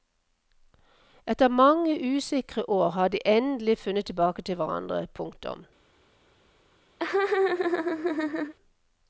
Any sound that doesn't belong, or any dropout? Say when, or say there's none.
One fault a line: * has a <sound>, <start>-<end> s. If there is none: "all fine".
* has a laugh, 7.0-8.5 s